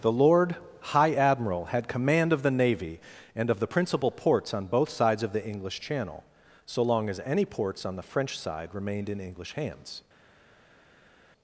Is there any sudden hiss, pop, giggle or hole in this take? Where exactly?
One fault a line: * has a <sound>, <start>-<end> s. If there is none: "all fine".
all fine